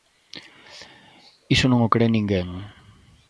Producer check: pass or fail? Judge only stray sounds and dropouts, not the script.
pass